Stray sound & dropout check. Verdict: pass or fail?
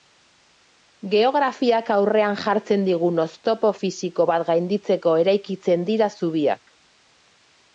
pass